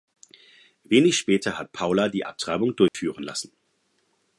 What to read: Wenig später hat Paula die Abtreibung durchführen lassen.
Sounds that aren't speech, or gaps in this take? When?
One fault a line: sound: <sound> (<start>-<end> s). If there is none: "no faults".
sound: dropout (2.9-2.9 s)